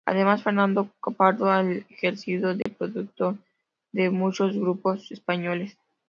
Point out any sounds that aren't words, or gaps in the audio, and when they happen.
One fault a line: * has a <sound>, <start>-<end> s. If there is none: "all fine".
* has a dropout, 2.6-2.7 s